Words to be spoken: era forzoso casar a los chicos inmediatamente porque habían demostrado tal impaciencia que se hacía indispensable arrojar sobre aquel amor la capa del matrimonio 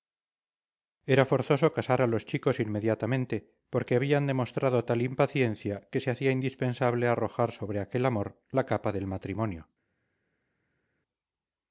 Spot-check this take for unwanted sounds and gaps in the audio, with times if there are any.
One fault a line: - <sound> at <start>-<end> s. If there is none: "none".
none